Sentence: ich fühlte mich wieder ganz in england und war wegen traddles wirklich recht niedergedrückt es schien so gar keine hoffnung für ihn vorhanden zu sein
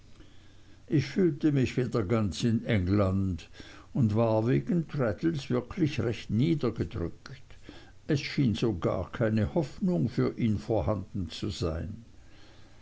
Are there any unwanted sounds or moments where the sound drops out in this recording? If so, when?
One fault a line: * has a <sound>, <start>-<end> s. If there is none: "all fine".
all fine